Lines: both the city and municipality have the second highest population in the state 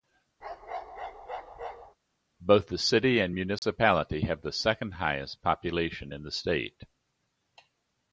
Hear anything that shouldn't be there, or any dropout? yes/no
yes